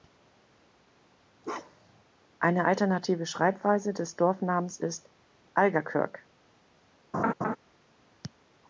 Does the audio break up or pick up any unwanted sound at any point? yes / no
yes